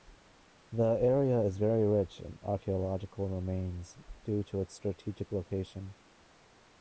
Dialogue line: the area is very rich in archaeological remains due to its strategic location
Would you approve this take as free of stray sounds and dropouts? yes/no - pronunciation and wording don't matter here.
yes